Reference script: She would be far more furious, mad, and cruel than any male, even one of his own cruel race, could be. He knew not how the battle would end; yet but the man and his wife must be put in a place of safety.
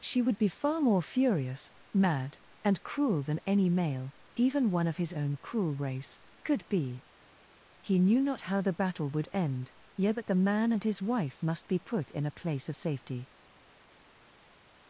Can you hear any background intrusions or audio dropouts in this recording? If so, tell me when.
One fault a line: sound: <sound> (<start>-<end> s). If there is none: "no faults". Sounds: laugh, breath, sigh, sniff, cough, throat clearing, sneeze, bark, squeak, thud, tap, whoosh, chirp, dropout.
no faults